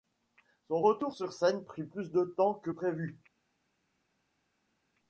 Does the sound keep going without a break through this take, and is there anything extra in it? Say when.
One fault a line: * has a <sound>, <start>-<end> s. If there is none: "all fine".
all fine